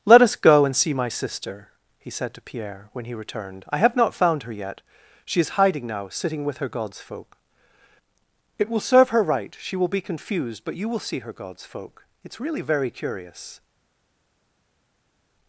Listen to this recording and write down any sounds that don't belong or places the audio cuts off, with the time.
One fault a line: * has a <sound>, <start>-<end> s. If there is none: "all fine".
all fine